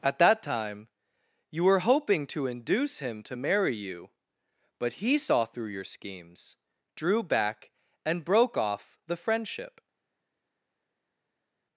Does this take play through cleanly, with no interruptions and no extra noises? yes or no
yes